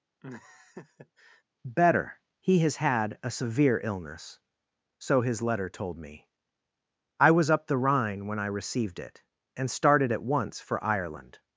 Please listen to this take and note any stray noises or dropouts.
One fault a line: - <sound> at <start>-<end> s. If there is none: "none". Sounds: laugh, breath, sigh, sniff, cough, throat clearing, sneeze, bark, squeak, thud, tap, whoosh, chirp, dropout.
- laugh at 0.2-1.4 s